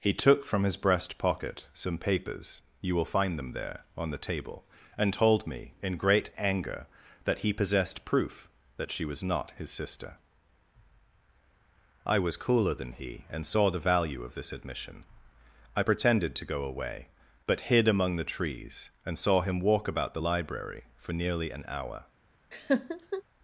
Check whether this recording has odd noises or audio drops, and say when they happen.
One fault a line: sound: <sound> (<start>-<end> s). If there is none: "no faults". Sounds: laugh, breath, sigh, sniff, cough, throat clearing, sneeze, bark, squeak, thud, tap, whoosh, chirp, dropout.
sound: laugh (22.5-23.2 s)